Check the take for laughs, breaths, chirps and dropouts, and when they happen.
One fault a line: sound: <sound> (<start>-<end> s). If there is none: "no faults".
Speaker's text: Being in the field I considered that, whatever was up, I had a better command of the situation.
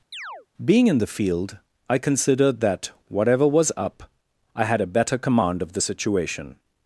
sound: chirp (0.1-0.5 s)